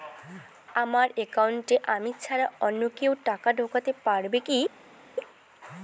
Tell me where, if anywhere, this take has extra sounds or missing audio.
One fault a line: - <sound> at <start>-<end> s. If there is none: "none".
none